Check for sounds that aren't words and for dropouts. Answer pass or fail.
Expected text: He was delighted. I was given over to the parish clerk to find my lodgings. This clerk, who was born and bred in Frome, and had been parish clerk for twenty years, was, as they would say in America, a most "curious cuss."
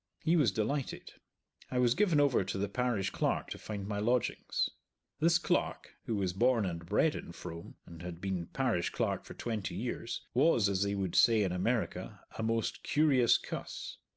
pass